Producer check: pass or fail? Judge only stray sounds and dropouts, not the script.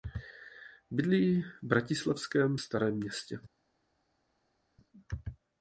pass